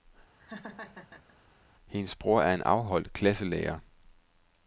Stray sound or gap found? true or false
true